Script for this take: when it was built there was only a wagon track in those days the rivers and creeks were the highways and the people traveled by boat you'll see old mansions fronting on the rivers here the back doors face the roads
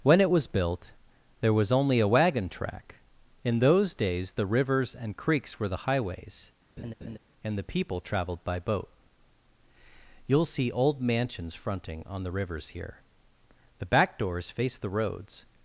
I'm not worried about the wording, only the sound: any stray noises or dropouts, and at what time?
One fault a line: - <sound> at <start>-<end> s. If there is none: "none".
- laugh at 6.8-7.2 s